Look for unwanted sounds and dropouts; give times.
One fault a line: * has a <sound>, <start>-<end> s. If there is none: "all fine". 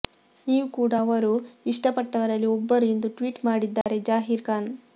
* has a dropout, 3.8-3.9 s